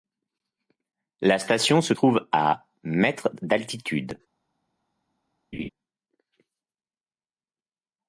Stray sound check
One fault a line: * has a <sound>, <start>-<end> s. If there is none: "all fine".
* has a laugh, 5.5-5.7 s